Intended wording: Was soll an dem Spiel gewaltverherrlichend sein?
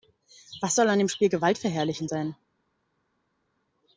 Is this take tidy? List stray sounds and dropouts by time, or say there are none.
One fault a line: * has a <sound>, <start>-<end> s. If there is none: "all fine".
all fine